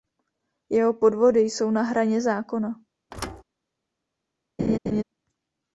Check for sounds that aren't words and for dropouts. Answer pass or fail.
fail